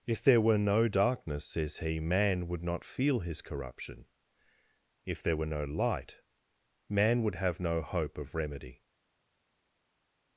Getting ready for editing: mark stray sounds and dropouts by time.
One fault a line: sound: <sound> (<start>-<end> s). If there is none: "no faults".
no faults